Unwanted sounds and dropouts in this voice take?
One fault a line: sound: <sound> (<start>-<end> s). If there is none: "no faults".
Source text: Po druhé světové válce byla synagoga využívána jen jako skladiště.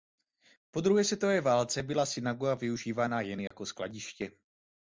sound: dropout (3.5-3.5 s)